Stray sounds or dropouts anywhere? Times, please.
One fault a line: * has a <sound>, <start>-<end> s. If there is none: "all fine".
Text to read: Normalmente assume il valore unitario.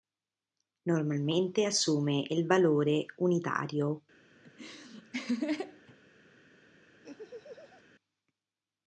* has a laugh, 4.4-6.0 s
* has a laugh, 7.0-7.8 s